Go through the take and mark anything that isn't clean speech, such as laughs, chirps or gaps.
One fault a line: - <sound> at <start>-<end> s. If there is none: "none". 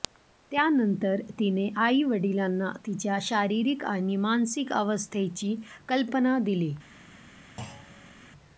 - thud at 7.6-8.1 s